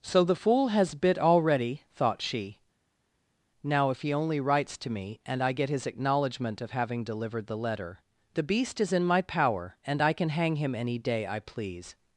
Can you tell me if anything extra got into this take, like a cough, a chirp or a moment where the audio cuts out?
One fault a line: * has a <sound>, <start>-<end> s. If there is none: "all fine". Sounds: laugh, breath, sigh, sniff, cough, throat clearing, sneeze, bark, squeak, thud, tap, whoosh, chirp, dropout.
all fine